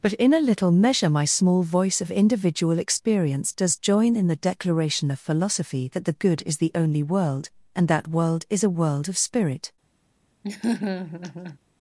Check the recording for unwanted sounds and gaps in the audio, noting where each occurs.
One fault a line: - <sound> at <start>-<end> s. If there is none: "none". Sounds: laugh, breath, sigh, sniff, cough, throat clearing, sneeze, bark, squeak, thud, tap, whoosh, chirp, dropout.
- laugh at 10.4-11.6 s